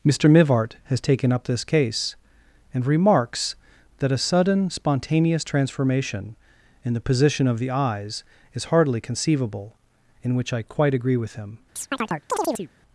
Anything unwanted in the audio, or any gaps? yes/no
yes